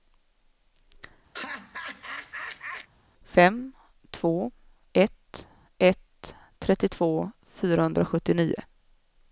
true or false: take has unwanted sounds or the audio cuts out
true